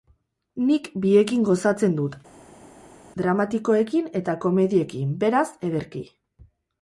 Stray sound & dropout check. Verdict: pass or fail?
pass